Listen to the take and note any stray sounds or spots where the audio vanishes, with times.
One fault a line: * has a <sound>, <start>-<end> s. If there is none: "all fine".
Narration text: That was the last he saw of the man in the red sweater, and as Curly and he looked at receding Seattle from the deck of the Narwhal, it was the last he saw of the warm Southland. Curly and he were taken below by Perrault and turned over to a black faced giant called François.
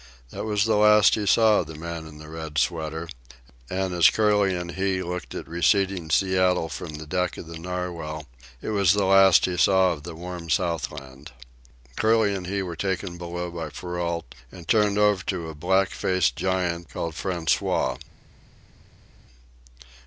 all fine